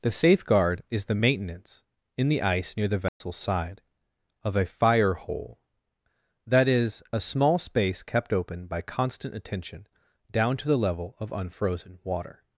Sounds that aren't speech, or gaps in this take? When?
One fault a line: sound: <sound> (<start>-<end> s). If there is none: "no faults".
sound: dropout (3.1-3.2 s)